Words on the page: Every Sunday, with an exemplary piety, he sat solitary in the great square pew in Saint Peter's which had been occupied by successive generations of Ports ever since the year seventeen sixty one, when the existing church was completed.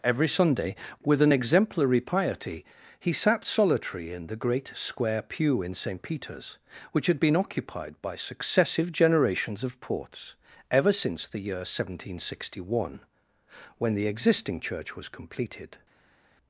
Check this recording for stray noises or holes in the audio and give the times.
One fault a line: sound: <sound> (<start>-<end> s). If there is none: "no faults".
no faults